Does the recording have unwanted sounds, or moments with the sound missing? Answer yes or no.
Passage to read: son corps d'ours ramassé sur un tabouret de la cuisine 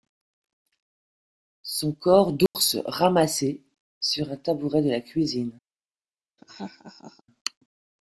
yes